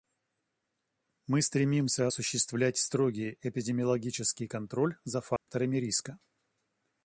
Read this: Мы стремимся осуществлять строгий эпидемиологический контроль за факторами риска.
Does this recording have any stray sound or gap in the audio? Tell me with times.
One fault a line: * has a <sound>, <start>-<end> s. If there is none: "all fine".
* has a dropout, 5.4-5.5 s